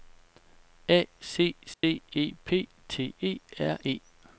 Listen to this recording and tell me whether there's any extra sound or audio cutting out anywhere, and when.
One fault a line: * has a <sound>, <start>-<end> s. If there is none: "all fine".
* has a dropout, 1.7-1.8 s